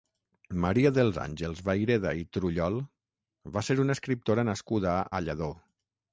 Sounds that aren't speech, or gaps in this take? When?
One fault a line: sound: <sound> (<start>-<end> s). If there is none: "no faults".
no faults